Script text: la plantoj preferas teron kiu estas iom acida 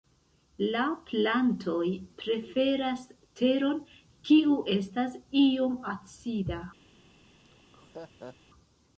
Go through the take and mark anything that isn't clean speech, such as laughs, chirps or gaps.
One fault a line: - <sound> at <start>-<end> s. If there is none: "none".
- laugh at 7.4-8.4 s